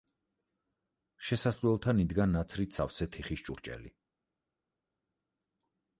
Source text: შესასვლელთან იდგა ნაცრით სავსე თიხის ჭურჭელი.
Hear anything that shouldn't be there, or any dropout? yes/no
no